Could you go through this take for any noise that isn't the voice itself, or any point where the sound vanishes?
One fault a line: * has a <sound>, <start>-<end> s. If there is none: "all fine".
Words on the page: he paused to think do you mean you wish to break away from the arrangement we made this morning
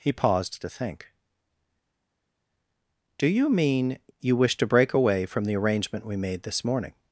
all fine